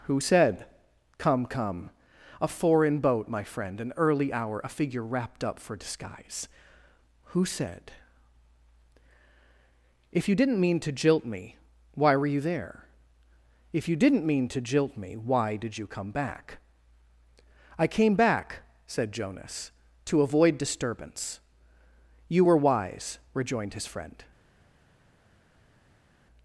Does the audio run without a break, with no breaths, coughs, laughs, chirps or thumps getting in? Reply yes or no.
yes